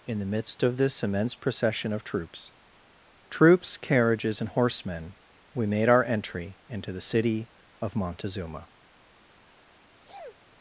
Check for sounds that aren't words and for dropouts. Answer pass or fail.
fail